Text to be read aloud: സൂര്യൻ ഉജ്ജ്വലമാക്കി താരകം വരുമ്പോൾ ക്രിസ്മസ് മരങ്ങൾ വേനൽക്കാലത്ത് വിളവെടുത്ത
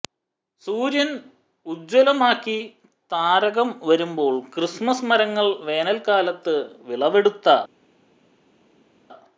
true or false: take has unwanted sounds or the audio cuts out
false